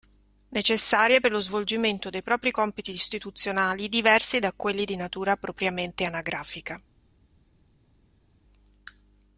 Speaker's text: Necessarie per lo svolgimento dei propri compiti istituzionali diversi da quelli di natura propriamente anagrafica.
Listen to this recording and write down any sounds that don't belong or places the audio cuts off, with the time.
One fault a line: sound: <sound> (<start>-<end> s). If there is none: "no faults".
no faults